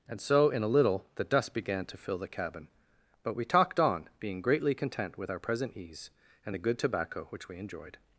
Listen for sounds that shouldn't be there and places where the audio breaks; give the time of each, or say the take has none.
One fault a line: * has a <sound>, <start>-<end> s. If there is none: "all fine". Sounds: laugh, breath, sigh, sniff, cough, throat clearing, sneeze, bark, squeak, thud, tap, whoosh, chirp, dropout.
all fine